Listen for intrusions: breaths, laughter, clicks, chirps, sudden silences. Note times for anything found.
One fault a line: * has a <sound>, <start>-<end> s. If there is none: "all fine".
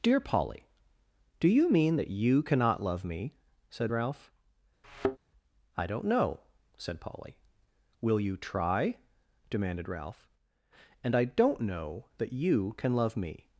* has a thud, 4.8-5.2 s